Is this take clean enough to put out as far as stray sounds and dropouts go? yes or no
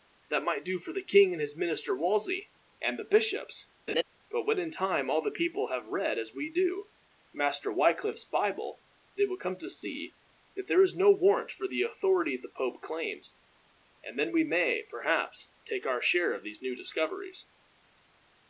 no